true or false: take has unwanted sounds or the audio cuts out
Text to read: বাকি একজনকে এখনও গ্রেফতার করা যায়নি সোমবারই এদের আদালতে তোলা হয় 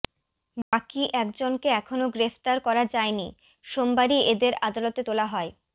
true